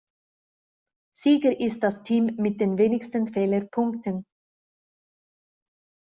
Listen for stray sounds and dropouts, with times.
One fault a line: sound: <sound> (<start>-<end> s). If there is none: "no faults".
no faults